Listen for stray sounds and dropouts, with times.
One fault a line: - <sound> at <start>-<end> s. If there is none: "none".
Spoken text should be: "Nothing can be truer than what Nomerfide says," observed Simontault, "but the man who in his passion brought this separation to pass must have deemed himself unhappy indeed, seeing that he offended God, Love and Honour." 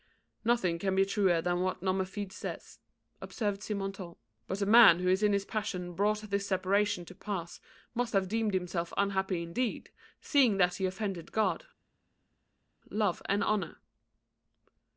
none